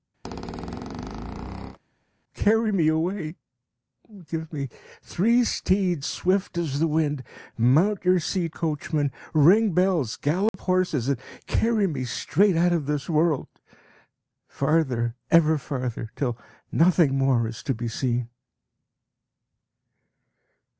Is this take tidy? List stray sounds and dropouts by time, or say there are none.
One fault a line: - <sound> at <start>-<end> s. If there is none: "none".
- squeak at 0.2-1.8 s
- dropout at 10.5-10.5 s